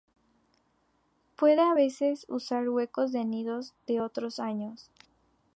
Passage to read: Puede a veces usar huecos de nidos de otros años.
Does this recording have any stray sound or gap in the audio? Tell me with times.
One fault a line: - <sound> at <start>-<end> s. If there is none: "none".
none